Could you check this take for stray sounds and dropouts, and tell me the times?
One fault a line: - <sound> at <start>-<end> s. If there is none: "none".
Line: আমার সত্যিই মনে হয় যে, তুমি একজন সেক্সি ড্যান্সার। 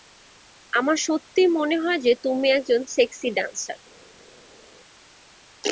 none